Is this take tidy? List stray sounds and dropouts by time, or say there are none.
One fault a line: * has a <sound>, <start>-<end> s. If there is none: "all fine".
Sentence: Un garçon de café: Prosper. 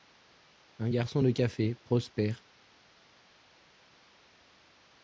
all fine